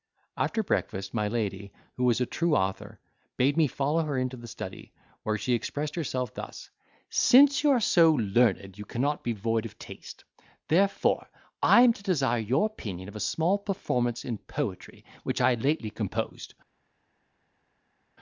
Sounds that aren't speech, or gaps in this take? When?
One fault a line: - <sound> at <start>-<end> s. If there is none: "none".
none